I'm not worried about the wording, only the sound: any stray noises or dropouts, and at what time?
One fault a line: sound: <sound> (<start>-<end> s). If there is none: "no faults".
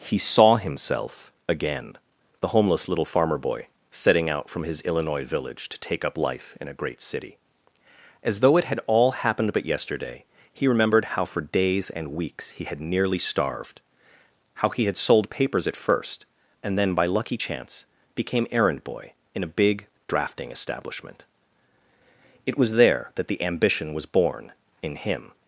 no faults